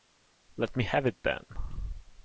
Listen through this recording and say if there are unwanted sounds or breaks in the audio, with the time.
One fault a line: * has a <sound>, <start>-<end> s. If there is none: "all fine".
all fine